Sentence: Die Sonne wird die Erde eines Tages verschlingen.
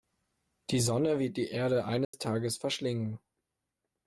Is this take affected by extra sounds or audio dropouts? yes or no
yes